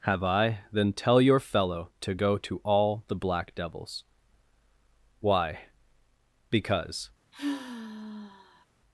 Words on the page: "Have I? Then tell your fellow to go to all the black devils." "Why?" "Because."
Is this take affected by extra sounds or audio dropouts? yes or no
yes